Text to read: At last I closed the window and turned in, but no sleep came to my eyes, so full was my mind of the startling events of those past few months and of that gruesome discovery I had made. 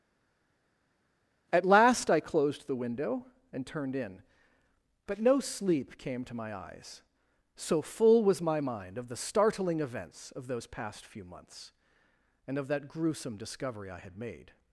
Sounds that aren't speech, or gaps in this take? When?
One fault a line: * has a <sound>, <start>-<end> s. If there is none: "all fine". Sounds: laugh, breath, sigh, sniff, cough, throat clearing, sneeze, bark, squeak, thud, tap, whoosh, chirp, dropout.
all fine